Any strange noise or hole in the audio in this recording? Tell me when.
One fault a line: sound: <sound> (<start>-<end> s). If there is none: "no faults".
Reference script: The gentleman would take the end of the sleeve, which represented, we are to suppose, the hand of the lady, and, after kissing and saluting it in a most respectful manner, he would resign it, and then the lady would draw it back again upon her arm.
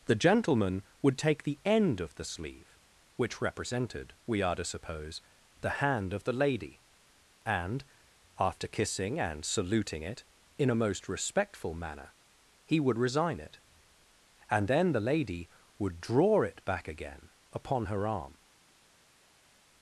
no faults